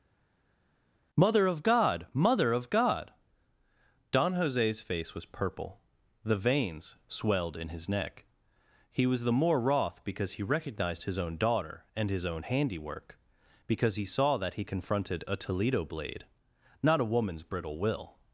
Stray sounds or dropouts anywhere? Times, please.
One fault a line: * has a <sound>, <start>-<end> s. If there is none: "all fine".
all fine